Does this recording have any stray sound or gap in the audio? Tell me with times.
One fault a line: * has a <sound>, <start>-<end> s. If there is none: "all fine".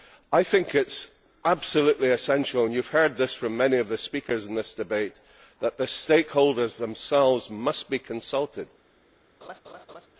* has a laugh, 9.4-10.1 s